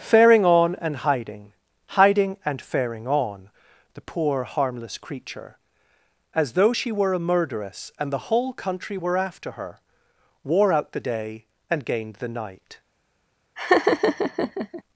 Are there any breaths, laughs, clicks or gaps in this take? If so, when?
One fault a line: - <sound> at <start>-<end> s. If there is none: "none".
- laugh at 13.6-14.8 s